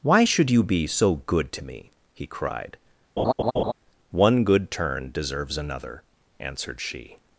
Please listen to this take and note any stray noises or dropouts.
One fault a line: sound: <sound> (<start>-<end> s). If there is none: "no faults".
sound: laugh (3.2-3.7 s)